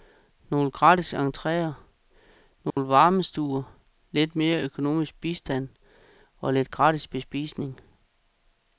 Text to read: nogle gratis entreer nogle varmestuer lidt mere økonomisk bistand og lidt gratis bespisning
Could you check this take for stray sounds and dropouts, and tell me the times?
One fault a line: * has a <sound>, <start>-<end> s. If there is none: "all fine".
* has a dropout, 2.7-2.8 s